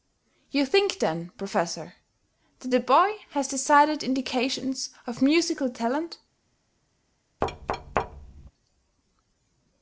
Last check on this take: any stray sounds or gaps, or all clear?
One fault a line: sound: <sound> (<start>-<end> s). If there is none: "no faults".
sound: thud (7.4-8.5 s)